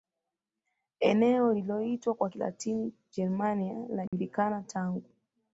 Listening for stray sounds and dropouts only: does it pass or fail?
fail